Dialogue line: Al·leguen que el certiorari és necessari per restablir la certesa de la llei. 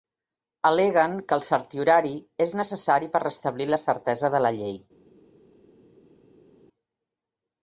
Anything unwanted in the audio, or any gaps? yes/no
no